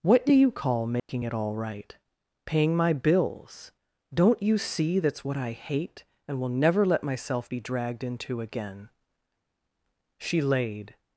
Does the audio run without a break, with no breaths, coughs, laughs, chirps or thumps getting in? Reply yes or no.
no